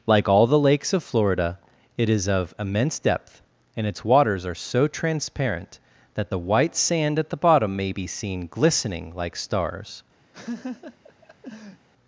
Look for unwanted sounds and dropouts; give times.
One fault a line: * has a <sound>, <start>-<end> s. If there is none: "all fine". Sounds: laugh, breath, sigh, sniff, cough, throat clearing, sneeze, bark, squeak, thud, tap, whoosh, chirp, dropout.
* has a laugh, 10.3-11.9 s